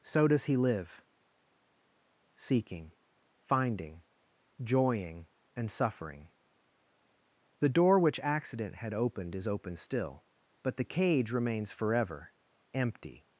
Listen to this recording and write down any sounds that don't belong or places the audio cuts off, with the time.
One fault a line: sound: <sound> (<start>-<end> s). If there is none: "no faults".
no faults